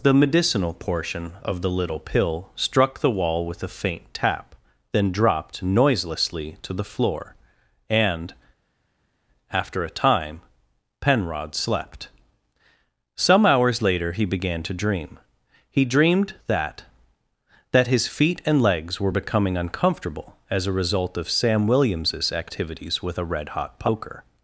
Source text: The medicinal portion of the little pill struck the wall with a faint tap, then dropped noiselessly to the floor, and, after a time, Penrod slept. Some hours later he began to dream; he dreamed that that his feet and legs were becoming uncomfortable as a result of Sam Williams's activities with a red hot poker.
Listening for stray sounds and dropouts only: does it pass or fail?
pass